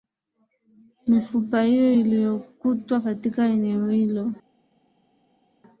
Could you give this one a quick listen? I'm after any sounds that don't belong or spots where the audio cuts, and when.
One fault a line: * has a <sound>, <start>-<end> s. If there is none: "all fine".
all fine